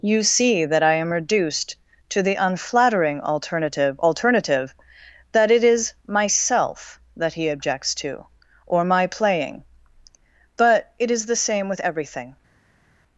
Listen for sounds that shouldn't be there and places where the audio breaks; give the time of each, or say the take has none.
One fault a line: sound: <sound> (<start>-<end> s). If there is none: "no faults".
no faults